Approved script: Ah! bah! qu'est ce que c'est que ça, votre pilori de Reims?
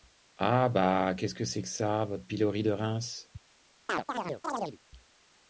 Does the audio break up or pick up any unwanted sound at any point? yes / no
yes